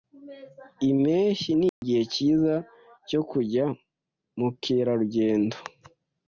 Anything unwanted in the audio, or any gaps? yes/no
yes